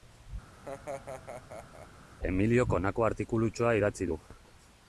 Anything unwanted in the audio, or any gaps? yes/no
yes